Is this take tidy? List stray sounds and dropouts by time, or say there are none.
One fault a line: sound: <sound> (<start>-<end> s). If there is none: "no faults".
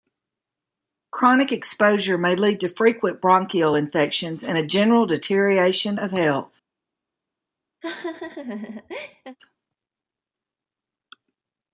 sound: laugh (7.8-9.4 s)